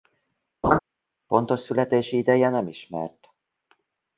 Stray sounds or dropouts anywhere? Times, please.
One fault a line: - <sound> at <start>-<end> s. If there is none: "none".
- laugh at 0.6-0.8 s